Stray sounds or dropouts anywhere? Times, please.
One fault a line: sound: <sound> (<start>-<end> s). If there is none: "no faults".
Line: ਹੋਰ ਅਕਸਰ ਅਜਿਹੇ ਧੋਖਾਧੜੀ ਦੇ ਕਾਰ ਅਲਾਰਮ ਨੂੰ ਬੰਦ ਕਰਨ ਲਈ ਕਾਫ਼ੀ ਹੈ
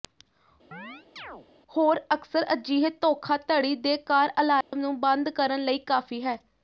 sound: chirp (0.7-1.5 s)
sound: dropout (4.6-4.7 s)